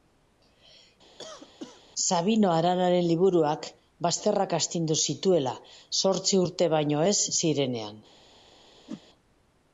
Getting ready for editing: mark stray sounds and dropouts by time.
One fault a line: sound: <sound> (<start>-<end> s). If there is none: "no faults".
sound: cough (1.2-1.8 s)
sound: whoosh (8.9-9.0 s)